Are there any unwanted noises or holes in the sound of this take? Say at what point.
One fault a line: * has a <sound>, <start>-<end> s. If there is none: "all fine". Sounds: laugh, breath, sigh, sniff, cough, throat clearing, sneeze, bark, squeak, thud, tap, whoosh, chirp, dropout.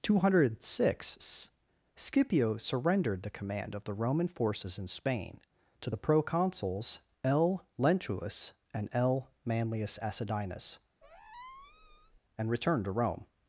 * has a squeak, 11.0-12.2 s